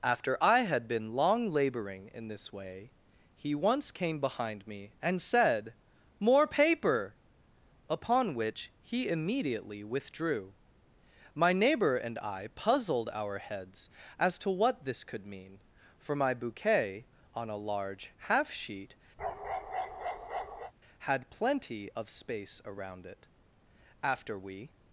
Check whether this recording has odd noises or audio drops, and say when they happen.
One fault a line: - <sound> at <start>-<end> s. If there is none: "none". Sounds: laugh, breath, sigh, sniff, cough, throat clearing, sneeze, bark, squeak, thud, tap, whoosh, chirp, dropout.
- bark at 19.2-20.7 s